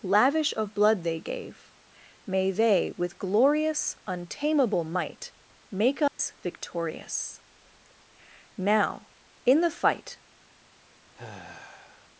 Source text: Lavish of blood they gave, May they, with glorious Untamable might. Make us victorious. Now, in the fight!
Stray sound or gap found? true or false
true